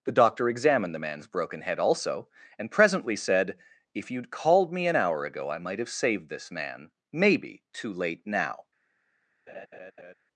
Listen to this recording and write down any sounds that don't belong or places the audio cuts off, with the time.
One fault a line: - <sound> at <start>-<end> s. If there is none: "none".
- laugh at 9.5-10.1 s